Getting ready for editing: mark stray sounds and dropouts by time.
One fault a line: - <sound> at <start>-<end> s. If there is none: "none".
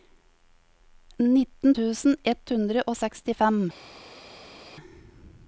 none